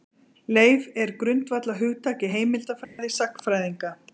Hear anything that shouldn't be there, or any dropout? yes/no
yes